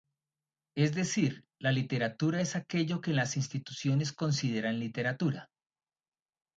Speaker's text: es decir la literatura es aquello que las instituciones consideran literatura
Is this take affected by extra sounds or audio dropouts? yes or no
no